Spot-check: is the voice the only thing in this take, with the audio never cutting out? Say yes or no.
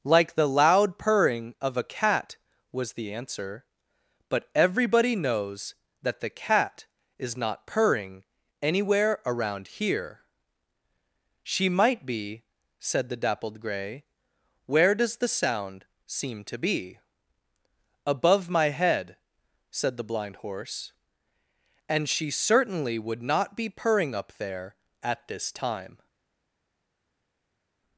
yes